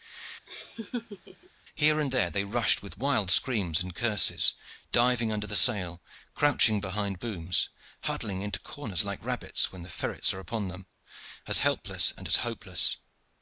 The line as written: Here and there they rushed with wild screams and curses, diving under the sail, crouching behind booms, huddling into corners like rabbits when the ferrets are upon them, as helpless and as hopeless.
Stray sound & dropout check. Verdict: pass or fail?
fail